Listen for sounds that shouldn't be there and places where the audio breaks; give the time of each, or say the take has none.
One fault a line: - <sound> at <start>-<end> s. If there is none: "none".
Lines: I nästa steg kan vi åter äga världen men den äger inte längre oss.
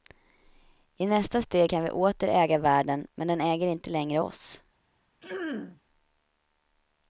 - throat clearing at 5.2-5.8 s